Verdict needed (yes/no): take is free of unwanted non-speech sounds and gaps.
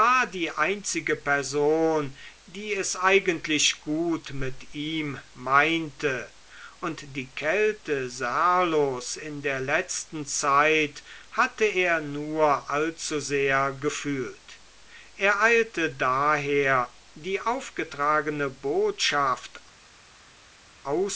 yes